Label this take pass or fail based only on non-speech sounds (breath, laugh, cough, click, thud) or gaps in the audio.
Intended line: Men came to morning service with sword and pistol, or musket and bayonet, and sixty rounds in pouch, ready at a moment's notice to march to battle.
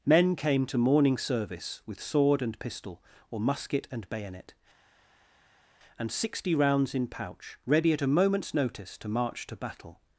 pass